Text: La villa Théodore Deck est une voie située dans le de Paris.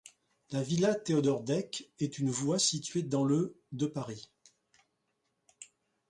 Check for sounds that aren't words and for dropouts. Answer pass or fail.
pass